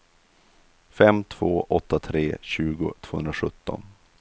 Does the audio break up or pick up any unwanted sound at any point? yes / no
no